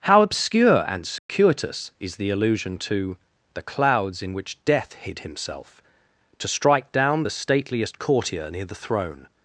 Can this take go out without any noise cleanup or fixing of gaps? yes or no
no